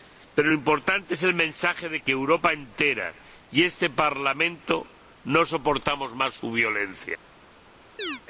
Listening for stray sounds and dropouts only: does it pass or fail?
fail